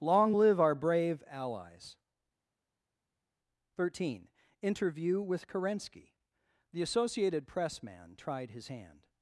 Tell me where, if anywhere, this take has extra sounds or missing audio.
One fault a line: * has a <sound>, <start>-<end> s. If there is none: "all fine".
all fine